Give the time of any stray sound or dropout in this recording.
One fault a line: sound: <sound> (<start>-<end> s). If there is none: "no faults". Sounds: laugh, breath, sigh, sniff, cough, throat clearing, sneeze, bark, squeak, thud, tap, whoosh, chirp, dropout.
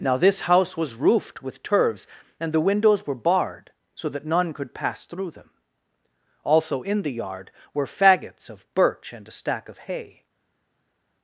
no faults